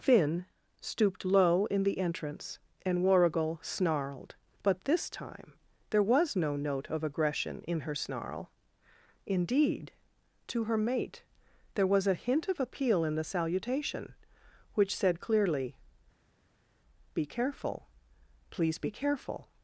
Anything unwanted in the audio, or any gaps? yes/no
no